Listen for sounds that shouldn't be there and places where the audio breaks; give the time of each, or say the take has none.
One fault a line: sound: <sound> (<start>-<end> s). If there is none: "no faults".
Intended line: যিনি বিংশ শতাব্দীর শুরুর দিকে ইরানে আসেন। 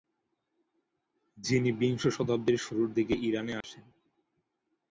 sound: dropout (3.6-3.6 s)